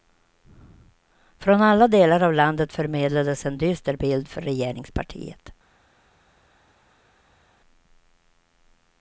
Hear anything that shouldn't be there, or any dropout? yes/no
no